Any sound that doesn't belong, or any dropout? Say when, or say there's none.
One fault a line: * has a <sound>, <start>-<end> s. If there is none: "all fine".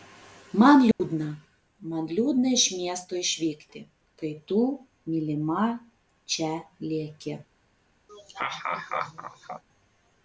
* has a dropout, 0.9-1.0 s
* has a laugh, 8.1-9.6 s